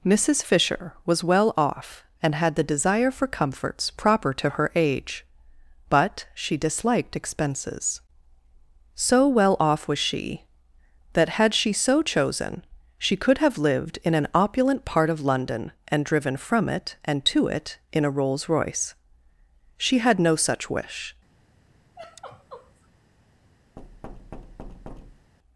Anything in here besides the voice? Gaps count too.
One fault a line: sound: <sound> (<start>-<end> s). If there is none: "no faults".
sound: sigh (21.9-22.9 s)
sound: thud (23.8-25.3 s)